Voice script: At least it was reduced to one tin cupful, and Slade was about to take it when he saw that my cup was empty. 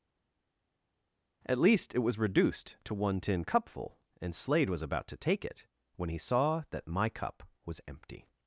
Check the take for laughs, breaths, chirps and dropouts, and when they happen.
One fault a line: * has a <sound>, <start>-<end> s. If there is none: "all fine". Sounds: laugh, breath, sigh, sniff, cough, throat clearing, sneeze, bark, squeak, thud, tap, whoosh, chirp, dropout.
all fine